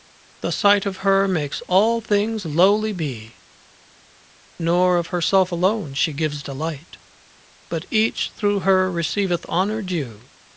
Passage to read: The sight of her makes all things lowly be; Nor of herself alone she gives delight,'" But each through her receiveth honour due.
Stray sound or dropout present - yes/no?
no